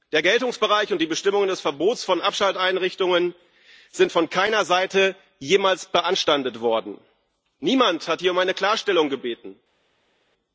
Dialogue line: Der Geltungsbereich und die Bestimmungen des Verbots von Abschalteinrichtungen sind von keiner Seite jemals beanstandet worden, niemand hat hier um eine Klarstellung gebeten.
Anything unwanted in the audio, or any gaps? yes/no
no